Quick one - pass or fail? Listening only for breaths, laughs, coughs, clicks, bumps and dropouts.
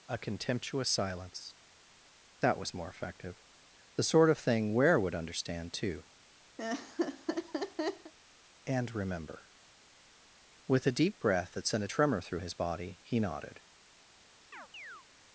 fail